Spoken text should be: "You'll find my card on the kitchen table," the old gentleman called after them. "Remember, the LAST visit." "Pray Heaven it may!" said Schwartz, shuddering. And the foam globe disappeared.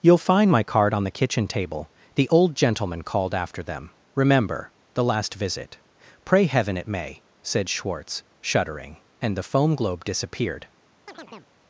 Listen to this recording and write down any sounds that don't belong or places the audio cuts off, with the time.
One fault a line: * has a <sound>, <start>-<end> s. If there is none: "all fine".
* has a chirp, 11.1-11.5 s